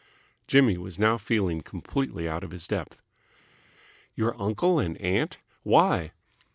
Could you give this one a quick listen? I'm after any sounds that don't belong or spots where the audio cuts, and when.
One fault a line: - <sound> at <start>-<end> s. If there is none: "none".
none